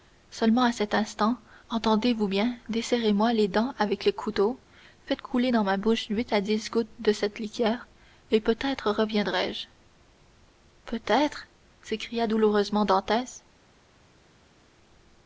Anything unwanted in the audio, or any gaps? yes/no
no